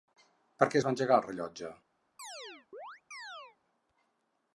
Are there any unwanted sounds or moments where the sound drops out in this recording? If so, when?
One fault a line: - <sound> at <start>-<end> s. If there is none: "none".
- chirp at 2.2-3.6 s